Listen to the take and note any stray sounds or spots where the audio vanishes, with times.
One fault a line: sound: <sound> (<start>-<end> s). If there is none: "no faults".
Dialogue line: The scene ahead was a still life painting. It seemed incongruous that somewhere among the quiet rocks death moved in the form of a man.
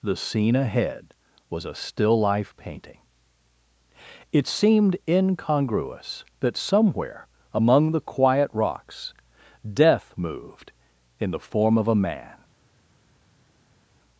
no faults